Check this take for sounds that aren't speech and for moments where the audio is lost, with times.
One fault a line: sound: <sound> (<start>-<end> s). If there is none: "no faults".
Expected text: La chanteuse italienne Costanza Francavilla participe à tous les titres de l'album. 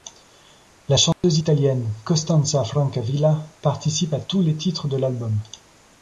sound: dropout (1.1-1.2 s)